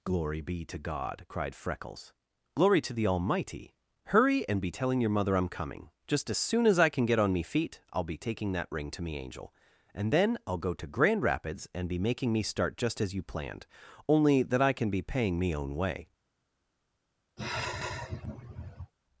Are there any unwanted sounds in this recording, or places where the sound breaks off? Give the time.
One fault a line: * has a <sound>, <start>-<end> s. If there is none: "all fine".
* has a sigh, 17.4-18.9 s